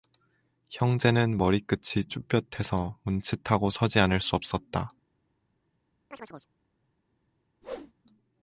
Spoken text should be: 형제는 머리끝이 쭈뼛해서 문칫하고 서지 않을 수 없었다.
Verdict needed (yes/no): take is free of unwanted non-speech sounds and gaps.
no